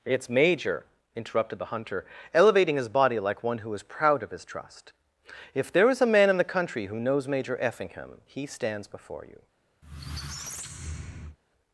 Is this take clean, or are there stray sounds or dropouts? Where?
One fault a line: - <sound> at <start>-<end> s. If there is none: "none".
- squeak at 9.8-11.4 s